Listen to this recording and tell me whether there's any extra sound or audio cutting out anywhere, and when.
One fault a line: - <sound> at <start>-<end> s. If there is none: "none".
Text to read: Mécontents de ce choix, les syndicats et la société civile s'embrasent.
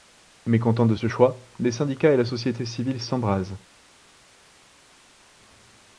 none